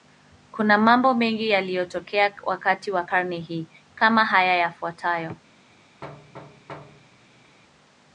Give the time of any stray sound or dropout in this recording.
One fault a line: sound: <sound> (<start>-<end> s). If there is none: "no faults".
sound: thud (6.0-7.6 s)